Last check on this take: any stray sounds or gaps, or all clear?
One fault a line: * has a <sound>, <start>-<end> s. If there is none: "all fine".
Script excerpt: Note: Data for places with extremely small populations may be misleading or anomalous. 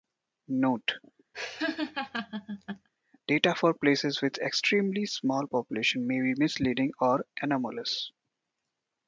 * has a laugh, 1.3-2.9 s